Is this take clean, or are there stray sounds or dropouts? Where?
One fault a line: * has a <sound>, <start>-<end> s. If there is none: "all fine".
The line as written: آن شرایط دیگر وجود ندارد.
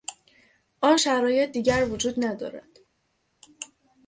all fine